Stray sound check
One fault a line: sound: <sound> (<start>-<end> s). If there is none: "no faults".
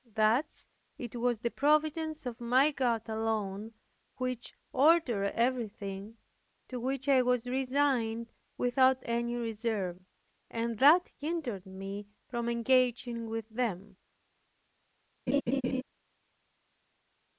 sound: laugh (15.3-15.8 s)